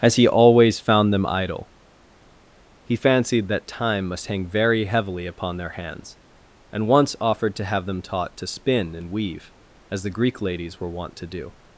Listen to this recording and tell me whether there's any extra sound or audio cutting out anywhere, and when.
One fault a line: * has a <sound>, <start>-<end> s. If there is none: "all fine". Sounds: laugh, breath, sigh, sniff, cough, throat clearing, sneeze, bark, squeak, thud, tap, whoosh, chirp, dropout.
all fine